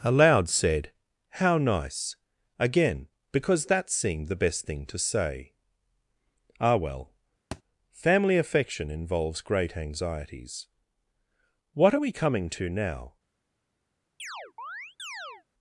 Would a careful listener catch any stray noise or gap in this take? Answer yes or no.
yes